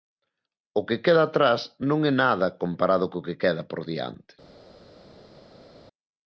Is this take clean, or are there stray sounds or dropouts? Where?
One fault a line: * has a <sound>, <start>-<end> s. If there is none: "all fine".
all fine